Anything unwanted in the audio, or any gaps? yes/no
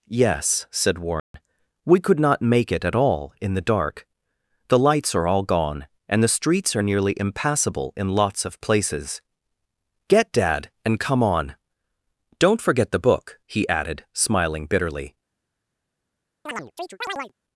yes